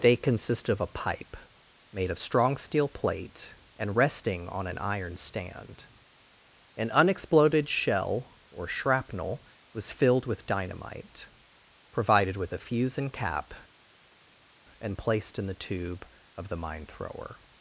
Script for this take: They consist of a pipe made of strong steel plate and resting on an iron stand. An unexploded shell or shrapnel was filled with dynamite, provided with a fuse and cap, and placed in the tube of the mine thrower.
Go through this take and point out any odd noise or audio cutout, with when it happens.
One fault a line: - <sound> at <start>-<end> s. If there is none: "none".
none